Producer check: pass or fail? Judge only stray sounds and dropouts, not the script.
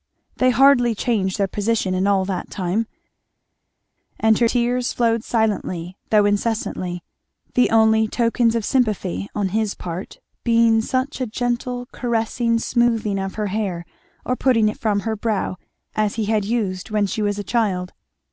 pass